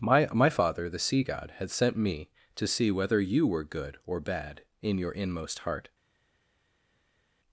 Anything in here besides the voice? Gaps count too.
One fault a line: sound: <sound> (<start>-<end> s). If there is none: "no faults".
no faults